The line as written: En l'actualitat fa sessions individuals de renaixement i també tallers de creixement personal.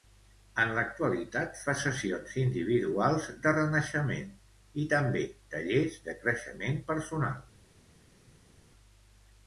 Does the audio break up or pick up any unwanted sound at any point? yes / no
no